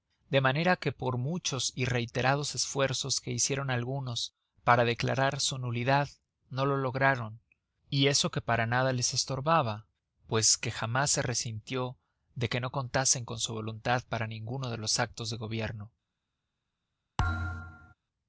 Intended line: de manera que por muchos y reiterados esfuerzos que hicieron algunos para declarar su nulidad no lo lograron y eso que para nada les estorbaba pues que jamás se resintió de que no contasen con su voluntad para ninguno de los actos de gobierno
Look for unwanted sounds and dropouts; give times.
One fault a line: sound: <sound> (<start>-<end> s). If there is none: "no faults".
sound: thud (17.2-17.9 s)